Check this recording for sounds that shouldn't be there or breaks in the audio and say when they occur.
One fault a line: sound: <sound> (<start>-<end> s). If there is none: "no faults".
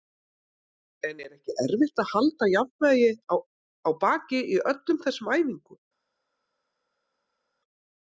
no faults